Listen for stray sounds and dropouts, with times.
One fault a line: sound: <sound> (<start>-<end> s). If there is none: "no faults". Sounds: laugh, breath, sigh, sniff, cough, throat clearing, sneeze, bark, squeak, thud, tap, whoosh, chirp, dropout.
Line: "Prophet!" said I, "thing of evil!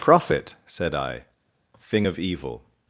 no faults